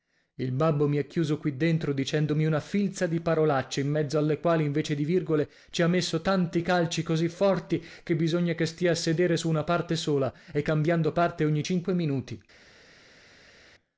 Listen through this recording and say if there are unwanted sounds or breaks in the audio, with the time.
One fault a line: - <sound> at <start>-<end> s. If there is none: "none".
none